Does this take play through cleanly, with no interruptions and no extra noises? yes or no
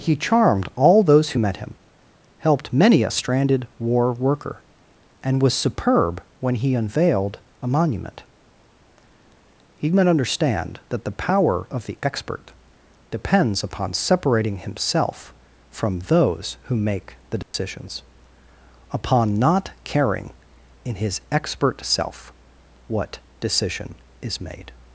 no